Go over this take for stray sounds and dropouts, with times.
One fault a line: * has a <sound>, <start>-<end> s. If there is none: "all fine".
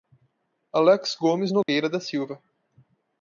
* has a dropout, 1.6-1.7 s